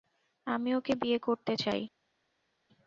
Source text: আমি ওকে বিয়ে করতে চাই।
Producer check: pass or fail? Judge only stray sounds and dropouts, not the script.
pass